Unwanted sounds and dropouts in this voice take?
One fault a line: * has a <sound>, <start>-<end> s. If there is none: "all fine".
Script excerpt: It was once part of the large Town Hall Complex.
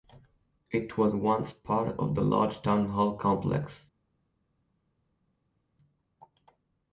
all fine